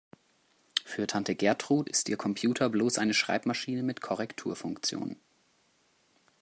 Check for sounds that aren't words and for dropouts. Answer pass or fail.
pass